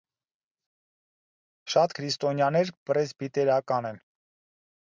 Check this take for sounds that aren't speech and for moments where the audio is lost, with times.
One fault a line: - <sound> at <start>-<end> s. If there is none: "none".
none